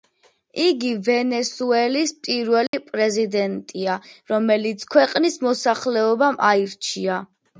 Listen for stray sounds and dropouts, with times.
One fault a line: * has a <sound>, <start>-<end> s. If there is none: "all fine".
* has a dropout, 2.7-2.7 s